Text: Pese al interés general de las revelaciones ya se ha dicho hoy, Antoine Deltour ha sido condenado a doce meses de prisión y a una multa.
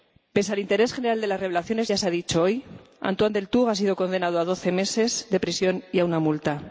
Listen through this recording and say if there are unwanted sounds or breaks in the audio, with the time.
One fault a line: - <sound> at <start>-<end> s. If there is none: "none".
none